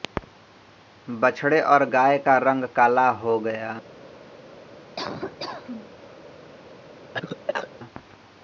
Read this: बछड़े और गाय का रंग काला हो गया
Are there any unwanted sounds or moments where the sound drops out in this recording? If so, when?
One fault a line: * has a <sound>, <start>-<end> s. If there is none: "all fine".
* has a laugh, 5.0-6.0 s
* has a cough, 7.1-7.7 s